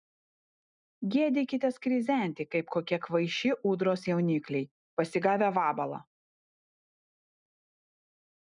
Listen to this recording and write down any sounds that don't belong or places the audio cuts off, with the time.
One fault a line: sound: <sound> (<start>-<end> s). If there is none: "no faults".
no faults